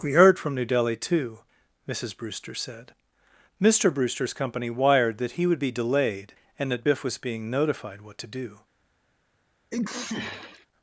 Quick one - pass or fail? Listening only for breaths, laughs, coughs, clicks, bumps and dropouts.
fail